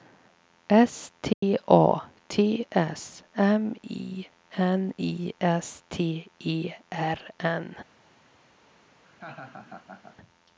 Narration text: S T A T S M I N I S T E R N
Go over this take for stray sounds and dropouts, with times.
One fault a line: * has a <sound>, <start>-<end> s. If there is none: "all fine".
* has a dropout, 1.3-1.4 s
* has a laugh, 9.0-10.2 s